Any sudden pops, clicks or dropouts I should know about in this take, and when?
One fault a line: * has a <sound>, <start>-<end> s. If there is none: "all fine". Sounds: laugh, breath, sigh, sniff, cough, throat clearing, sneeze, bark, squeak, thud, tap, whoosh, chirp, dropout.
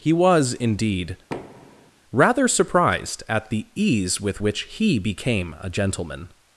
* has a thud, 1.3-1.9 s